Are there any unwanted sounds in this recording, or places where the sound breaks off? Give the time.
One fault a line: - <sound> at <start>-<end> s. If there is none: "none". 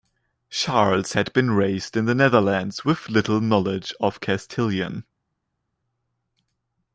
none